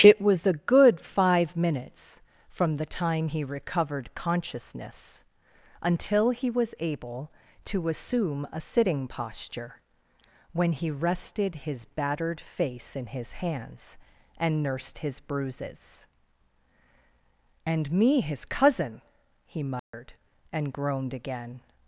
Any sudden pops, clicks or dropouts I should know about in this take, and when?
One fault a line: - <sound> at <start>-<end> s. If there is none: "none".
- dropout at 19.8-19.9 s